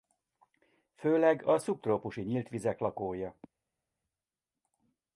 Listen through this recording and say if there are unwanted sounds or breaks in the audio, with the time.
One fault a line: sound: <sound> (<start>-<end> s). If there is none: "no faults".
no faults